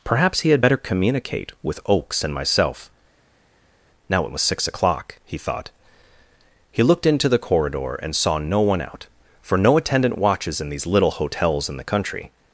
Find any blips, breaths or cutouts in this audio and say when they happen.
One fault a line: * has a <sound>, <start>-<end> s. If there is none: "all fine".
all fine